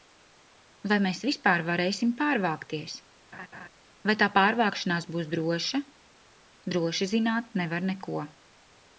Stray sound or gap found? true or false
true